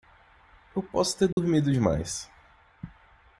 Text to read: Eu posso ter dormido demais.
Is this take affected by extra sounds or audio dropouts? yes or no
yes